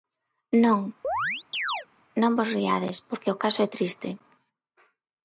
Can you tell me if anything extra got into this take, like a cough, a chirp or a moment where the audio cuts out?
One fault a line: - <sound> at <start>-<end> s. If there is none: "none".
- chirp at 1.0-1.9 s